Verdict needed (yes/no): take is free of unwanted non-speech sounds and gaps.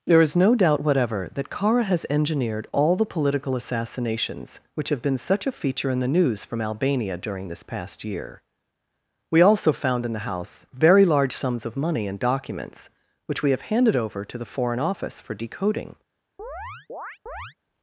no